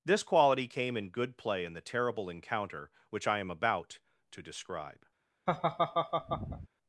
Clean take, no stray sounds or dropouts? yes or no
no